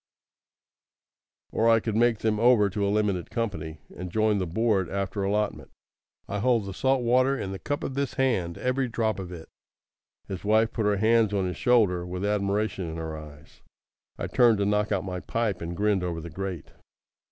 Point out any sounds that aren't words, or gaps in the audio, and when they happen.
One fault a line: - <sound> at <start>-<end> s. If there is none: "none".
none